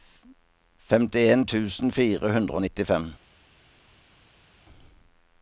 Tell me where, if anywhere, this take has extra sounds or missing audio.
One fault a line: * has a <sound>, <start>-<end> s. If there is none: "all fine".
all fine